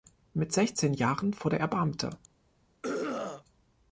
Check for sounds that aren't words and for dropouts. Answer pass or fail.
fail